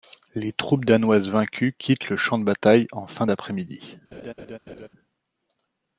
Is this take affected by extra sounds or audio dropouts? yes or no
yes